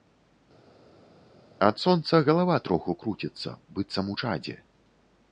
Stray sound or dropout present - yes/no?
no